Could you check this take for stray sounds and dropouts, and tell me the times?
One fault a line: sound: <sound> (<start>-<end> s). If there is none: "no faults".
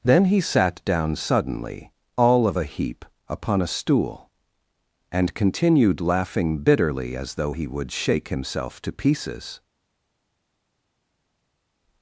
no faults